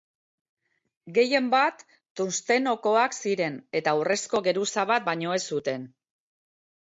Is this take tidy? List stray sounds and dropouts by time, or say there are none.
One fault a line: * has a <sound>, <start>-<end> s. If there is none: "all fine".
all fine